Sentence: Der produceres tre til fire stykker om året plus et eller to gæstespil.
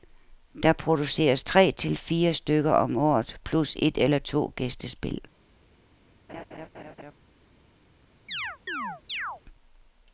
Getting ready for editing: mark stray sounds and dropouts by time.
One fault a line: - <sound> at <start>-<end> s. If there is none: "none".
- laugh at 6.3-7.1 s
- chirp at 8.3-9.4 s